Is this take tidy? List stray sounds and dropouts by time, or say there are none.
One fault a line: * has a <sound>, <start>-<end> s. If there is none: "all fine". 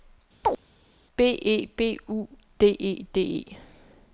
* has a chirp, 0.4-0.6 s